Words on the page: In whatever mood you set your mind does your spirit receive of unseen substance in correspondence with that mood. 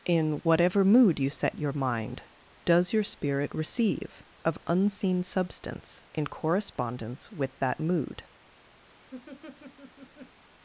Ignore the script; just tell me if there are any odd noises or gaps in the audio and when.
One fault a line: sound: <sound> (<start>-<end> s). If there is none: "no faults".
sound: laugh (8.9-10.4 s)